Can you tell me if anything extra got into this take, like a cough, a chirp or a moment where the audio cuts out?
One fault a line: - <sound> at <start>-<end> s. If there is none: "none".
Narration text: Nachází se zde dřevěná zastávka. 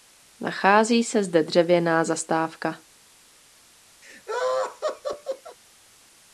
- laugh at 4.0-5.6 s